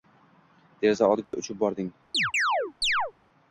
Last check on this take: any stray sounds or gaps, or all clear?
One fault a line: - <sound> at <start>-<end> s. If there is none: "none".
- dropout at 1.2-1.3 s
- chirp at 2.1-3.1 s